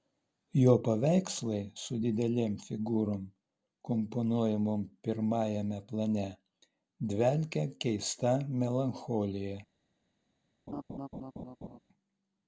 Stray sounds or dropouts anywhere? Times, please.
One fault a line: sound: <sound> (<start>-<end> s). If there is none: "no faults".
sound: laugh (10.7-11.8 s)